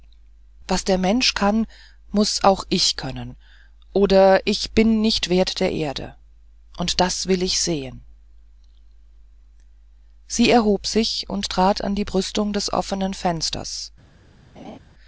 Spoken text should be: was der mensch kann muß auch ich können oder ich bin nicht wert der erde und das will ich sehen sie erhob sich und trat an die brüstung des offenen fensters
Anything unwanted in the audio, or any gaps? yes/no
yes